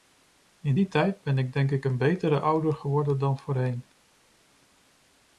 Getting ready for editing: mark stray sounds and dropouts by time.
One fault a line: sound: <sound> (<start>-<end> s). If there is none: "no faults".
no faults